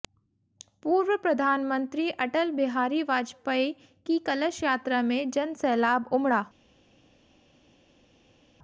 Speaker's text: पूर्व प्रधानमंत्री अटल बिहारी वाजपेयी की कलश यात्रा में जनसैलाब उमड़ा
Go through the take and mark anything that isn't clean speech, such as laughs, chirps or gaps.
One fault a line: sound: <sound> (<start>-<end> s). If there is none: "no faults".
no faults